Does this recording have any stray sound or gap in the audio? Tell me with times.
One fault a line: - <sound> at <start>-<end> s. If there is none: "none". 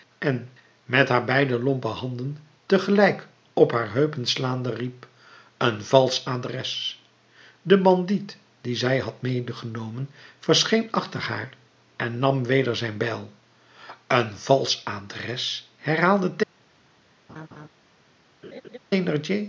- laugh at 17.3-17.7 s
- laugh at 18.4-18.8 s